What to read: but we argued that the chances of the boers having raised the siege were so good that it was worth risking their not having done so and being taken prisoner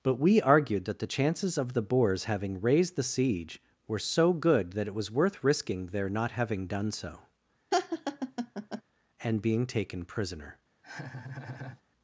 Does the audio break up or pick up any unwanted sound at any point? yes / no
yes